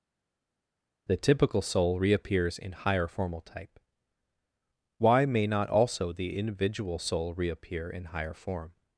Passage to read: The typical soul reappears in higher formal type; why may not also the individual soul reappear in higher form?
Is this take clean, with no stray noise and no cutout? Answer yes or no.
yes